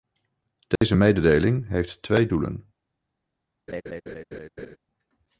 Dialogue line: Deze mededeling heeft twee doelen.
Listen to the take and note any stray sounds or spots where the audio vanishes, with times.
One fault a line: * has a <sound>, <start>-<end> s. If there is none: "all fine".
* has a dropout, 0.8-0.8 s
* has a laugh, 3.7-4.8 s